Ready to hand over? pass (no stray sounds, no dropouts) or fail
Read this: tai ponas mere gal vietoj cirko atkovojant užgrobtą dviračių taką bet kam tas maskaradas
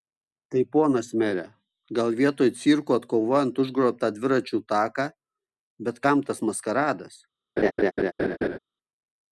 fail